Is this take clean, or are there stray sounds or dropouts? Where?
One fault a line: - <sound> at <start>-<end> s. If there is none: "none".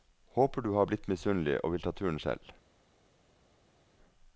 none